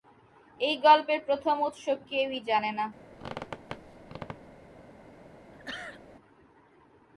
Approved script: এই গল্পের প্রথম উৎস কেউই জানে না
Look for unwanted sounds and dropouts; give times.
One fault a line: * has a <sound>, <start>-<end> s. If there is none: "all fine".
* has a squeak, 3.1-4.7 s
* has a sneeze, 5.5-6.0 s